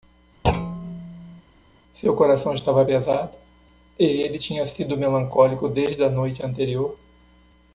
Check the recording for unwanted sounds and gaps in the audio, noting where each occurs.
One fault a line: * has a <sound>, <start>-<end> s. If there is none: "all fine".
* has a thud, 0.4-1.4 s